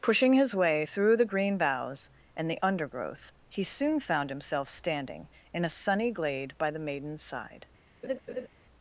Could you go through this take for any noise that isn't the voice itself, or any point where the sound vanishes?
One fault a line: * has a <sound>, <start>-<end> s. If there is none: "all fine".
* has a laugh, 8.0-8.5 s